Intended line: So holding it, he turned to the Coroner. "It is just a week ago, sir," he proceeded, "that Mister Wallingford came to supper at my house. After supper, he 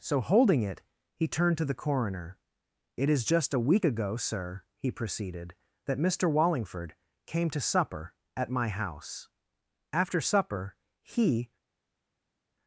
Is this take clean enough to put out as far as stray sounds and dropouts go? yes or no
yes